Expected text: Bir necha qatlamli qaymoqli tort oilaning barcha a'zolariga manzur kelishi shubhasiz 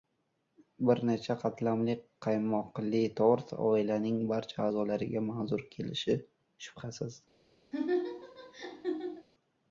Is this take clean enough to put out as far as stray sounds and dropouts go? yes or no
no